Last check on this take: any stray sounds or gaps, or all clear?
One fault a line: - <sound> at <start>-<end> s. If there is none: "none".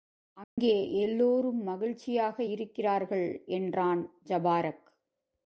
- dropout at 0.4-0.6 s